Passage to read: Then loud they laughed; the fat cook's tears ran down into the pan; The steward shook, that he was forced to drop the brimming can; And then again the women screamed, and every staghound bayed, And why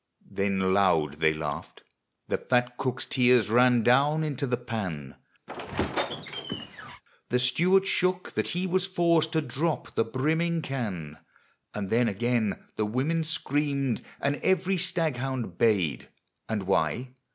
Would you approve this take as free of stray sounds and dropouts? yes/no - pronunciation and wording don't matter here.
no